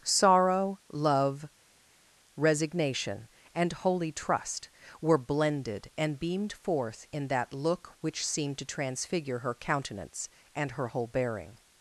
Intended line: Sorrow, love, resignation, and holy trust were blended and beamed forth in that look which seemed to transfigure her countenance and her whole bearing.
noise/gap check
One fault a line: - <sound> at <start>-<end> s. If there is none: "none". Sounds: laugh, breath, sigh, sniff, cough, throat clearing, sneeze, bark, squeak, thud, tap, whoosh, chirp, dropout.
none